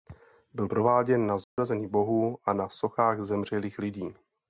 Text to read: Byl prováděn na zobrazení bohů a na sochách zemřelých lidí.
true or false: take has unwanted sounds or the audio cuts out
true